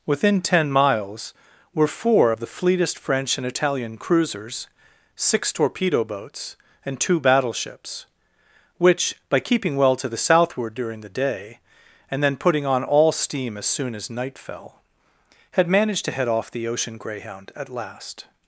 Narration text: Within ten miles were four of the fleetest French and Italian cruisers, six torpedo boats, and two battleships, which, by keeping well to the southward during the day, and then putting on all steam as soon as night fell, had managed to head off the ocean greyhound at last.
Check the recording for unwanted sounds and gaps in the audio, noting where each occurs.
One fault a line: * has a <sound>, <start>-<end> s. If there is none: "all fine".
all fine